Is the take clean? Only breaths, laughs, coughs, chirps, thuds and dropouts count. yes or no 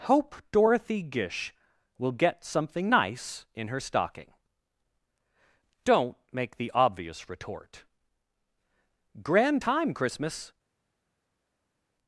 yes